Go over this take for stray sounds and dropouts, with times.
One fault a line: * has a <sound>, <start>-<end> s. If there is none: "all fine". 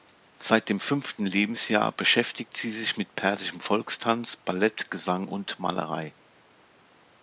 all fine